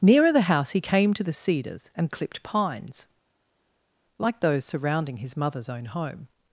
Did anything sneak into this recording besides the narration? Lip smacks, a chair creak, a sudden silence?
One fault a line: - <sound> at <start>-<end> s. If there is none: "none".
none